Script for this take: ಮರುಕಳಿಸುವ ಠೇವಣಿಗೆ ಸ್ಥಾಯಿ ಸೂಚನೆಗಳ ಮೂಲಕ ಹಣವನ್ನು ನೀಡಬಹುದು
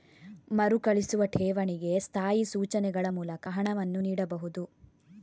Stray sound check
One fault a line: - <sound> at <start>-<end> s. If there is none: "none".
none